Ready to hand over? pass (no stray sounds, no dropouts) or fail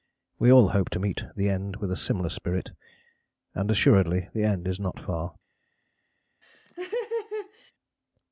fail